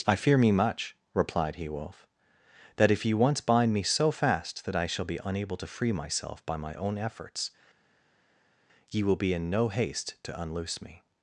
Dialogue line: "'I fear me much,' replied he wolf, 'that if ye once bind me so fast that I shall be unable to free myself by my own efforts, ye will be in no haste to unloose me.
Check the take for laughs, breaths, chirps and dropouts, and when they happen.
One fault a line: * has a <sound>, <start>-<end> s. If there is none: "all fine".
all fine